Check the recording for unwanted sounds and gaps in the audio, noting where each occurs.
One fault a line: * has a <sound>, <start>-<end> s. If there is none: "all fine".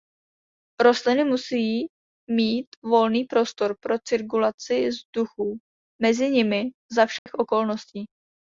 * has a dropout, 7.2-7.3 s